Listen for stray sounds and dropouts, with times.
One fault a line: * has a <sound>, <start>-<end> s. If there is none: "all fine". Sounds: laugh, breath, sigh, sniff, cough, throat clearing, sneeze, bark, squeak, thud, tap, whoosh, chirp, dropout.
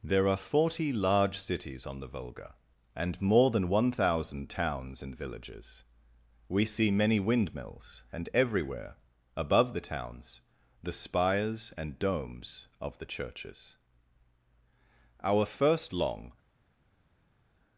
all fine